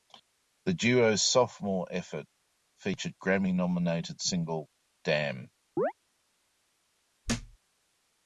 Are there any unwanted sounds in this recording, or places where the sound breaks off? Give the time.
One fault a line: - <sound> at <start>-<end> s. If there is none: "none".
- chirp at 5.8-5.9 s
- thud at 7.2-7.6 s